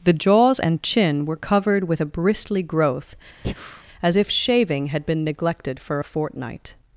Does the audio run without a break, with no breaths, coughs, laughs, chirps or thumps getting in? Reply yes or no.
no